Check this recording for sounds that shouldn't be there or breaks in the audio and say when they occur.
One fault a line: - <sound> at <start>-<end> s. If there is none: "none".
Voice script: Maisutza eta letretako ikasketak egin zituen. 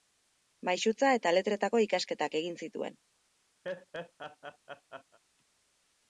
- laugh at 3.6-5.2 s